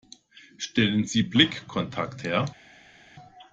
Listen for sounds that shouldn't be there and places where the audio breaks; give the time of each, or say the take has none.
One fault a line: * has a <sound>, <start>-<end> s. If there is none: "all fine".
all fine